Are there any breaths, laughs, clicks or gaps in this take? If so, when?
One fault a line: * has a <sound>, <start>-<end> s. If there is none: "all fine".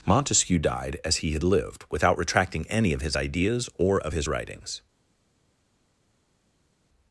all fine